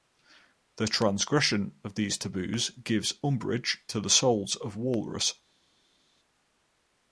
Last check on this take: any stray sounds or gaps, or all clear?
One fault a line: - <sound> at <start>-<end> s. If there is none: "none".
none